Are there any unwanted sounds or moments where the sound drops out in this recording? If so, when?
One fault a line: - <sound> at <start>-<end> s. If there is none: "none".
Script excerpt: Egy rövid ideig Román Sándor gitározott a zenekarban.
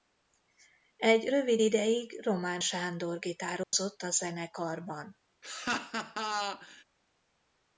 - dropout at 3.6-3.7 s
- laugh at 5.4-6.8 s